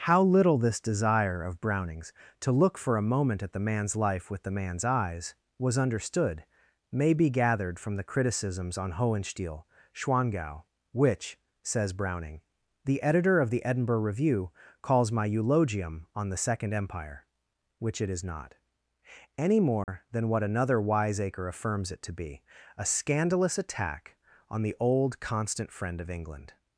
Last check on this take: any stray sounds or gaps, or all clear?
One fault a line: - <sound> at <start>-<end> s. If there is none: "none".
- dropout at 19.8-19.9 s